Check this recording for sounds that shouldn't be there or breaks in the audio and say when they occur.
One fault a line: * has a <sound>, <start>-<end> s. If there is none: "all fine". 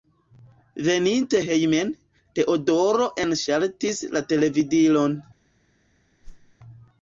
* has a whoosh, 6.2-6.6 s